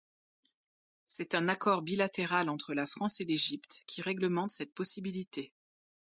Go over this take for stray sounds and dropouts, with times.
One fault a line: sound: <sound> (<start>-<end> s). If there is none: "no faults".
no faults